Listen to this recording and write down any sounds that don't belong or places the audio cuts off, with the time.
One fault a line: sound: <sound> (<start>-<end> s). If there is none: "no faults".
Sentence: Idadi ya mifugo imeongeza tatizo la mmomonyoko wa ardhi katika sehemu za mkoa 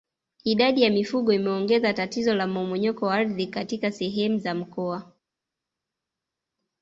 no faults